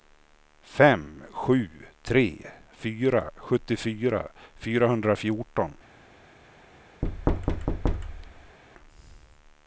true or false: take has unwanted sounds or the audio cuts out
true